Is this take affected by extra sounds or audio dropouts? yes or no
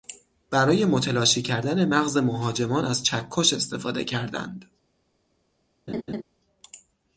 yes